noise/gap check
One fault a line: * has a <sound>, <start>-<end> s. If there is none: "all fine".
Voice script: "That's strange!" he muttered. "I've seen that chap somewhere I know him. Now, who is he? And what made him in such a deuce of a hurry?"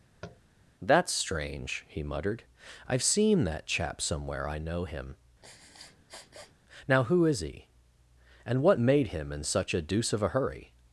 * has a tap, 0.2-0.4 s
* has a sniff, 5.4-6.5 s